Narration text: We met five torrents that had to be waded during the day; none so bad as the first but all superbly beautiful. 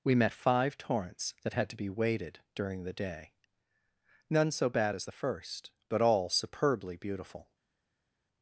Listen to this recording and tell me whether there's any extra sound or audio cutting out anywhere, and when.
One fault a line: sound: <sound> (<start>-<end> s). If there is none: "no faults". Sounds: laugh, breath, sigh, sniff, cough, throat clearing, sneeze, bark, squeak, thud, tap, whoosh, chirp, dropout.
no faults